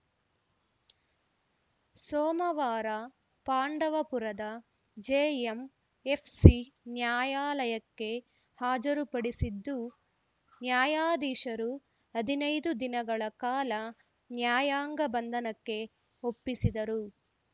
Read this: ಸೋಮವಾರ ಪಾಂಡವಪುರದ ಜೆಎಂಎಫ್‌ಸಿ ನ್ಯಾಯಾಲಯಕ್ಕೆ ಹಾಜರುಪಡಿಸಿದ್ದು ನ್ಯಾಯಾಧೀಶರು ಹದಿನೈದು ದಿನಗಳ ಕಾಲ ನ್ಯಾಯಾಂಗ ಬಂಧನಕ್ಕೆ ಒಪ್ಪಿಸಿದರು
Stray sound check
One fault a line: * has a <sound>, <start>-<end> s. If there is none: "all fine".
all fine